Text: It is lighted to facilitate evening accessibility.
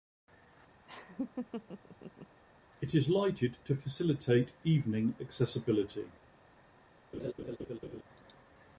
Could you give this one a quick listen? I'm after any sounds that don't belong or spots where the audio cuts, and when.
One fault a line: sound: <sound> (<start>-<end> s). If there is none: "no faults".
sound: laugh (0.8-2.4 s)
sound: laugh (7.1-8.0 s)